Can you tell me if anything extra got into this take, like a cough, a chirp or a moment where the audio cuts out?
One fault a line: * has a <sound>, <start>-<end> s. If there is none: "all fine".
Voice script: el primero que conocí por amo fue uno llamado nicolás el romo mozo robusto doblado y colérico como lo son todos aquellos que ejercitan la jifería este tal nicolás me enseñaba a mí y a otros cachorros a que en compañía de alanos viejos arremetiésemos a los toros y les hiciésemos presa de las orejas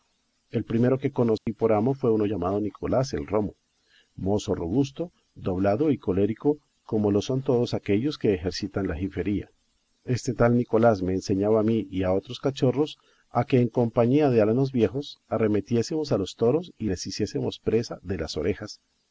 * has a dropout, 1.4-1.5 s